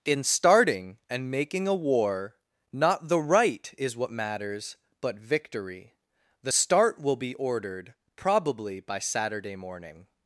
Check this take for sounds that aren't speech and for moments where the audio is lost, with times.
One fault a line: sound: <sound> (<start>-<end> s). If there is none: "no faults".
no faults